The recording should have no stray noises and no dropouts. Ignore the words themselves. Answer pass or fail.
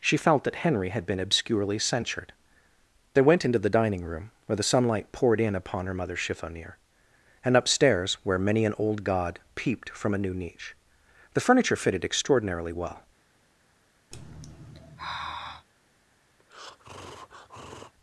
fail